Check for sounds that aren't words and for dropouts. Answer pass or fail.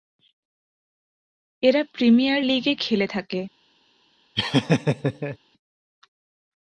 fail